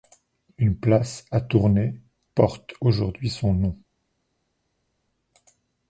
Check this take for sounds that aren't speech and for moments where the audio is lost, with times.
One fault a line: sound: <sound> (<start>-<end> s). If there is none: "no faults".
no faults